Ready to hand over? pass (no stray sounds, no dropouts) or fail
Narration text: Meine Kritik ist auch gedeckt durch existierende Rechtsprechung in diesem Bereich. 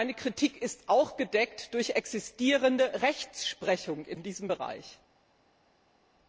pass